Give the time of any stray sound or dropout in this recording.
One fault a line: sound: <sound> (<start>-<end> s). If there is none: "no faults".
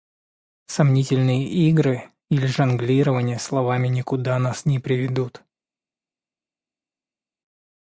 no faults